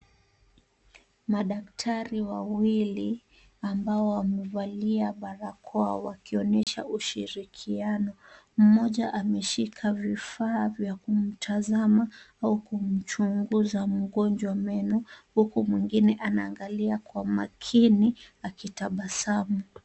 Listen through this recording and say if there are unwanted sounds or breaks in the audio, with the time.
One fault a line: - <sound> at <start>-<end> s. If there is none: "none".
- dropout at 6.6-6.7 s